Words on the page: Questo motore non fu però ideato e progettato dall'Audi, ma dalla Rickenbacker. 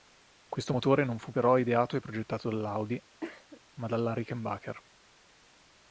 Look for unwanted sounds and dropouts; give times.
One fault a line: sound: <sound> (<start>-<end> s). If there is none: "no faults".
sound: cough (3.2-3.6 s)